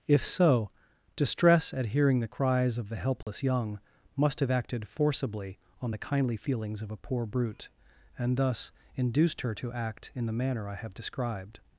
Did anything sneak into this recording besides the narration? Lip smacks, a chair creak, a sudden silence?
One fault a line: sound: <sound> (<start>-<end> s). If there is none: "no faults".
sound: dropout (3.2-3.3 s)